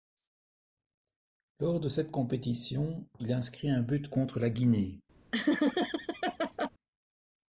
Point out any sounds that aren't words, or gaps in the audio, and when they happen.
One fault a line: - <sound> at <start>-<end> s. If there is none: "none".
- laugh at 5.3-6.7 s